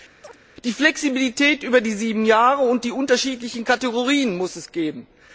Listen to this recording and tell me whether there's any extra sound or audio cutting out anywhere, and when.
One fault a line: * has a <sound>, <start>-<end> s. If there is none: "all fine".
* has a chirp, 0.2-0.4 s